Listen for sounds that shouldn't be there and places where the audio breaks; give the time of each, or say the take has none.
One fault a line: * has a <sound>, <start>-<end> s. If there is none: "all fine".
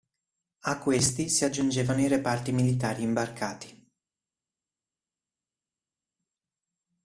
all fine